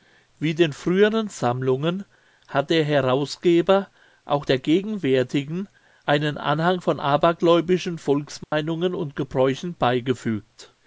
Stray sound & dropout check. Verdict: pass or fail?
fail